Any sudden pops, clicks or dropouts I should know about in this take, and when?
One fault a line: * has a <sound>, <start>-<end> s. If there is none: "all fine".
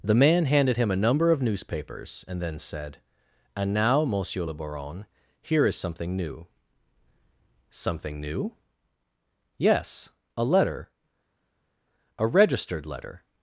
all fine